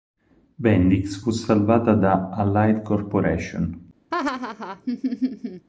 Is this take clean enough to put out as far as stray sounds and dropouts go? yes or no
no